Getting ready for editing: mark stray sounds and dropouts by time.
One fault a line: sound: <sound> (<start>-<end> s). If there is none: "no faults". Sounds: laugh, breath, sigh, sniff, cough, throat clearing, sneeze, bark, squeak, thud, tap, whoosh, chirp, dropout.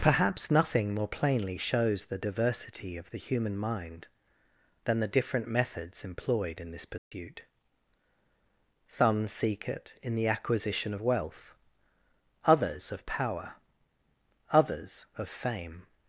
sound: dropout (7.0-7.1 s)